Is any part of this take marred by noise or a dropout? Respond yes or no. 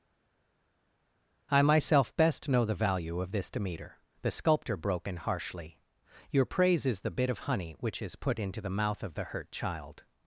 no